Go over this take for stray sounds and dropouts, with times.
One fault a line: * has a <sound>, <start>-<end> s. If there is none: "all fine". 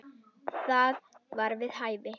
all fine